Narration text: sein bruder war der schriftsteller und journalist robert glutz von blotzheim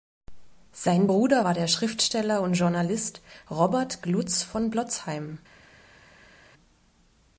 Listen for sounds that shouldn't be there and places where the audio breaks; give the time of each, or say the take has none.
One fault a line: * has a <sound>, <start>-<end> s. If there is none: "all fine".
all fine